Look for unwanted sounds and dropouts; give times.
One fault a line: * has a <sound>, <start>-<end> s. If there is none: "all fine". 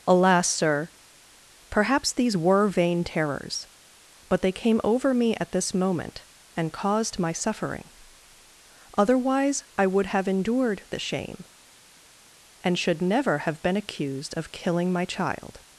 all fine